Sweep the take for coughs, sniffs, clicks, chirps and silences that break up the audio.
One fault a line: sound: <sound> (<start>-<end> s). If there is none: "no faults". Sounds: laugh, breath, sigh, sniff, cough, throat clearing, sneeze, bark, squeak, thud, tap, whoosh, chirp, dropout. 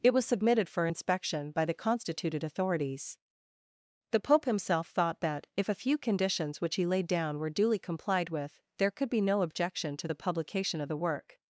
no faults